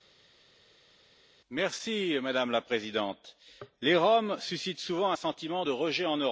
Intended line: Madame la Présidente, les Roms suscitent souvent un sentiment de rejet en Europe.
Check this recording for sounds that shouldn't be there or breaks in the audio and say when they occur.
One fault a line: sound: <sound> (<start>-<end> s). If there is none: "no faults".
no faults